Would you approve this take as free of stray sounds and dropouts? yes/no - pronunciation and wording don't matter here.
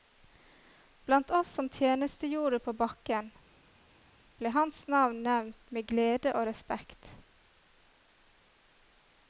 yes